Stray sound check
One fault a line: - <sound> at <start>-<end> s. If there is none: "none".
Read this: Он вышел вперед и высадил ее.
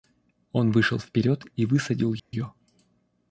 - dropout at 2.2-2.3 s